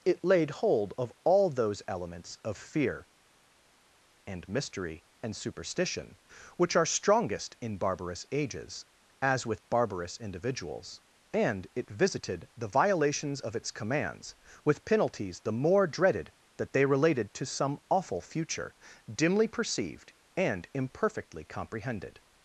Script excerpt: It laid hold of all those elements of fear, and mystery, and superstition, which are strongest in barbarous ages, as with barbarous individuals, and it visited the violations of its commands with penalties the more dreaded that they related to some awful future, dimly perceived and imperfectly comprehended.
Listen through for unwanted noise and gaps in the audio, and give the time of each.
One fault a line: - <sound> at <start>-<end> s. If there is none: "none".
none